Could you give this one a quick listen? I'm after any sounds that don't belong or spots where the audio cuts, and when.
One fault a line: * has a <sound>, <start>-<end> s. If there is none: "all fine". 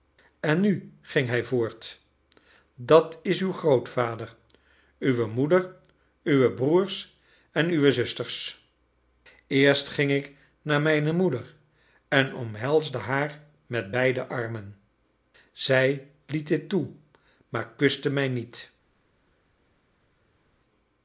all fine